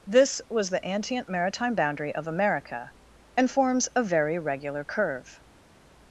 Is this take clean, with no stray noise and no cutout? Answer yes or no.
yes